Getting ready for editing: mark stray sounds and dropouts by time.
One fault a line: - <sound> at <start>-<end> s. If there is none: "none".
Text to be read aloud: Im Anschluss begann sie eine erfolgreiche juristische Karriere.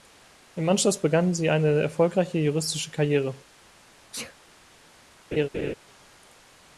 - sneeze at 4.1-4.4 s
- laugh at 5.3-5.7 s